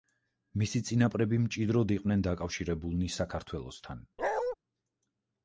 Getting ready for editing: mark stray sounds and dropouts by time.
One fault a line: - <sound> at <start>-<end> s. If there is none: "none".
- bark at 4.2-4.6 s